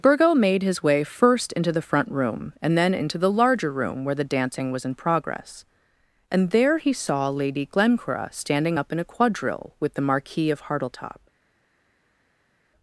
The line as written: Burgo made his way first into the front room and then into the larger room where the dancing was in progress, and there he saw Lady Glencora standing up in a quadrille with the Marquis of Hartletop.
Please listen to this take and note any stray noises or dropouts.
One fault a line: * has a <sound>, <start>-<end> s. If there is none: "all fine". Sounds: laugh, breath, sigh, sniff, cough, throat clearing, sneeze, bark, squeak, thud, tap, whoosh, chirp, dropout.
all fine